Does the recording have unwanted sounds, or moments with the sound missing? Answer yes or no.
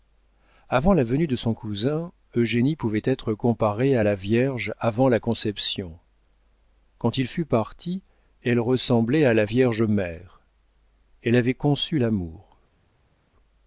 no